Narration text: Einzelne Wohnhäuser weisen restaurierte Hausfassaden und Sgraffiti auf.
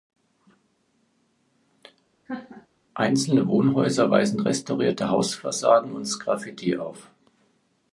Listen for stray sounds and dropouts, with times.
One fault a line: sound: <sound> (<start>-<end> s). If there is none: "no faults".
sound: laugh (2.3-2.7 s)